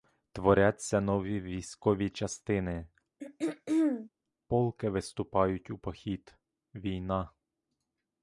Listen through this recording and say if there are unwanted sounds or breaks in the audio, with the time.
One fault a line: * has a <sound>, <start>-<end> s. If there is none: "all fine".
* has a throat clearing, 3.2-4.1 s